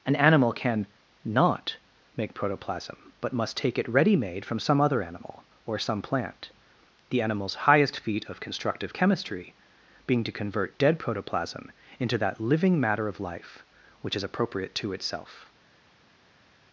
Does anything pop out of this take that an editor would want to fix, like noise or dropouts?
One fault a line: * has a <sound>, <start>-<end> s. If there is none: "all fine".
all fine